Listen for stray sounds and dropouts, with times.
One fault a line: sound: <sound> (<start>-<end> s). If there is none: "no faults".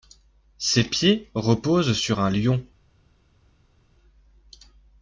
no faults